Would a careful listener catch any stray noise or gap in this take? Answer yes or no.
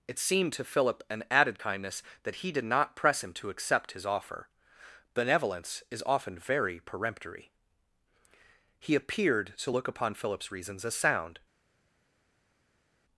no